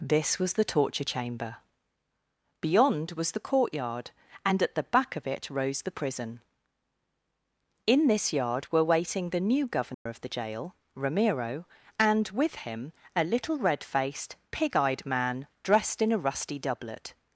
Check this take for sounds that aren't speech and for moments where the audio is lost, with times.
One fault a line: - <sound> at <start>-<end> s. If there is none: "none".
- dropout at 9.9-10.1 s